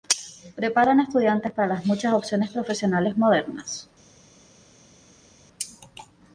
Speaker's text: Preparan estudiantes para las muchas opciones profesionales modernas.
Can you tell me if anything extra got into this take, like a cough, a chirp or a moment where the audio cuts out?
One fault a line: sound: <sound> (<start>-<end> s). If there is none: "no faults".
no faults